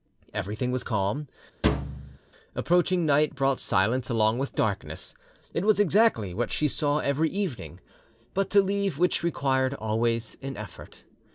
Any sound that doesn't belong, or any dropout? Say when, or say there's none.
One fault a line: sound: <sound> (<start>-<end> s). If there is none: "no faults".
sound: thud (1.6-2.2 s)